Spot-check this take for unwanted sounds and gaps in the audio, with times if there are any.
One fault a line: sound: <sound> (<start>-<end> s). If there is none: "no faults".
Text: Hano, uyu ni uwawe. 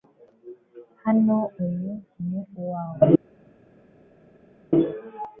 no faults